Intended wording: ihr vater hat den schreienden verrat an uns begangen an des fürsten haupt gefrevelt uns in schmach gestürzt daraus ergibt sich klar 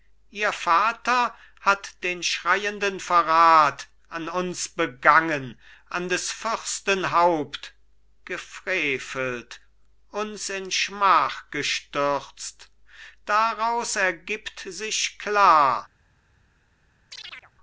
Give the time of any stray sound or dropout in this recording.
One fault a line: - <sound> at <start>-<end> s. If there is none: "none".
- chirp at 17.1-17.5 s